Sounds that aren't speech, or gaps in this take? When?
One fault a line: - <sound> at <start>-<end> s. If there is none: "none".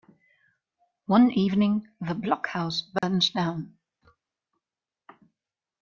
- dropout at 3.0-3.0 s